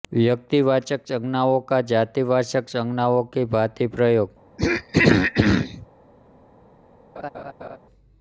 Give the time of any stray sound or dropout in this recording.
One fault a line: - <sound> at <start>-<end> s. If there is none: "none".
- throat clearing at 4.6-5.9 s
- laugh at 7.2-7.8 s